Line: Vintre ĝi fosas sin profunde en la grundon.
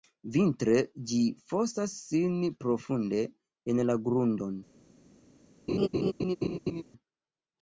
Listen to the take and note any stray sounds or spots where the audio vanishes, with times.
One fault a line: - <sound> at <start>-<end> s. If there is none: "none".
- laugh at 5.7-6.8 s